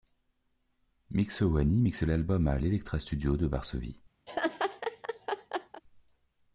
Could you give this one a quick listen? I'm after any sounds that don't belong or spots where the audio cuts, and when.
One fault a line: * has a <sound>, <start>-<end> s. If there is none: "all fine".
* has a laugh, 4.3-5.8 s